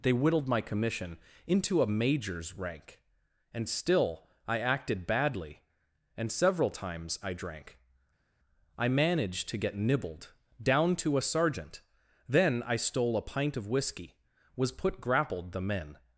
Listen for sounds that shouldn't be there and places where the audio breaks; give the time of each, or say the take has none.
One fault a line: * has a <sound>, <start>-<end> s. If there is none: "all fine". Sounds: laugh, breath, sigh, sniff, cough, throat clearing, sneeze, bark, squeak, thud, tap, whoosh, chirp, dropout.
all fine